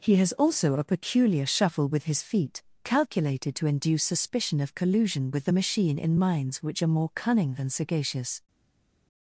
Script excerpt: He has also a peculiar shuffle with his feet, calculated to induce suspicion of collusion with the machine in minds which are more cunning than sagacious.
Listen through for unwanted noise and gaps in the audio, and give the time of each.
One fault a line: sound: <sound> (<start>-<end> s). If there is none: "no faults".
no faults